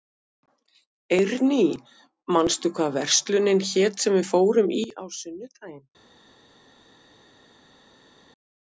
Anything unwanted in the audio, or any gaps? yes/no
no